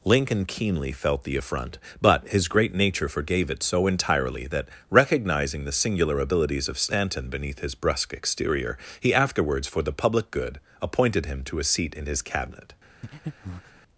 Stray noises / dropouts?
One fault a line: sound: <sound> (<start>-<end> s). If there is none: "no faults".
sound: breath (13.0-13.8 s)